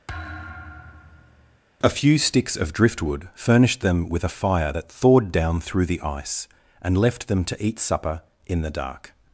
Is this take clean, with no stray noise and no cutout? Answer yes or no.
no